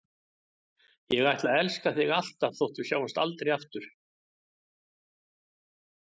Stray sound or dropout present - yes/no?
no